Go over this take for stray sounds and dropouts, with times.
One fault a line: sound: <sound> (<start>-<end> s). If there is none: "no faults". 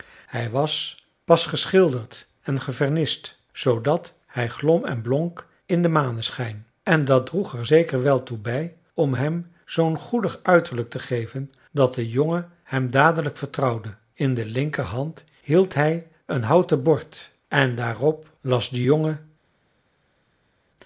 no faults